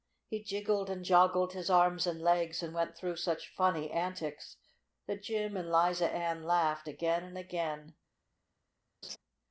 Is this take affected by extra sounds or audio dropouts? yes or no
yes